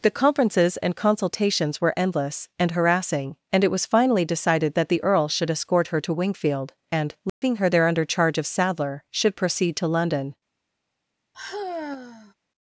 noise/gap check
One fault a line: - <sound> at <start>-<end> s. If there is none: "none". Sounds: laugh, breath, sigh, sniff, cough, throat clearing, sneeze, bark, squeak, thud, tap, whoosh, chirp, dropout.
- dropout at 7.3-7.4 s
- sigh at 11.3-12.3 s